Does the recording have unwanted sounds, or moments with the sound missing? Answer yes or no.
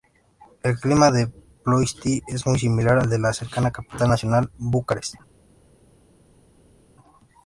no